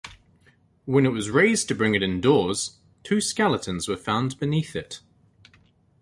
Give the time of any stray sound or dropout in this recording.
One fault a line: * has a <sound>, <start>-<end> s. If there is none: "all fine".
all fine